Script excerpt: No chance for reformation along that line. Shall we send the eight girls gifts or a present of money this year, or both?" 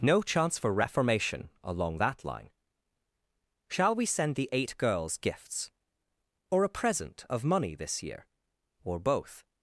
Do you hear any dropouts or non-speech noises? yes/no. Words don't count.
no